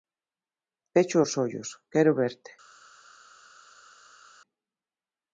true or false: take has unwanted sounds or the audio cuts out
false